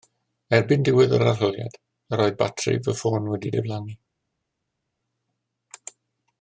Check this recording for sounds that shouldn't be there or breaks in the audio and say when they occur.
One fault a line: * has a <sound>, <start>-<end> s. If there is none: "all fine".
all fine